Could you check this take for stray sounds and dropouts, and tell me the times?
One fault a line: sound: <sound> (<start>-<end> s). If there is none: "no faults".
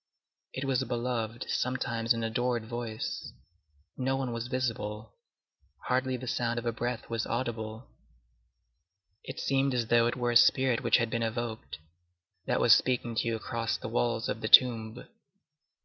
no faults